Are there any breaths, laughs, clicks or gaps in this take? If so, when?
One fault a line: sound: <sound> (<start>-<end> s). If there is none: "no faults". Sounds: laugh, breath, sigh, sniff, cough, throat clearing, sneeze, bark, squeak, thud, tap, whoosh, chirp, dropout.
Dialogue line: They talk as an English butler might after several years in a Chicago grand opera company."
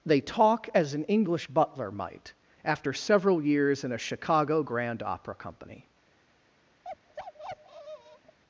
sound: bark (6.8-8.4 s)